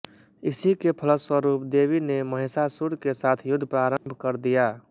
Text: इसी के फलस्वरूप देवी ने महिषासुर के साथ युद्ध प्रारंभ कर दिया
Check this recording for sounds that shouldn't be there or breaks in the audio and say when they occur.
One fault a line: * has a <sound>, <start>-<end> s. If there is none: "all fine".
* has a dropout, 4.0-4.1 s